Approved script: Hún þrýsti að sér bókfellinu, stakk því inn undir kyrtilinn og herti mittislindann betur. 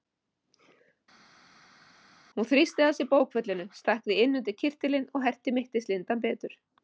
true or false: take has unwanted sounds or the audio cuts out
false